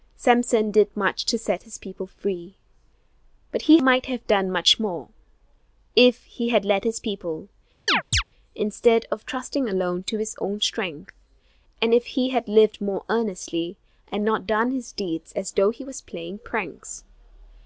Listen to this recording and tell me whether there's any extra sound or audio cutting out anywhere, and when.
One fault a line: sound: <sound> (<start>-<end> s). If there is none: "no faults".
sound: chirp (7.9-8.2 s)